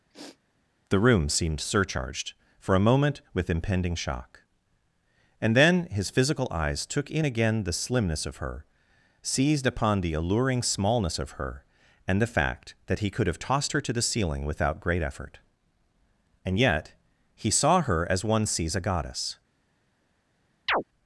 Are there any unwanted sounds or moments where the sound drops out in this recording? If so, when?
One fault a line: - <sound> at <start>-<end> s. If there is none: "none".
- sniff at 0.1-0.4 s
- chirp at 20.7-20.8 s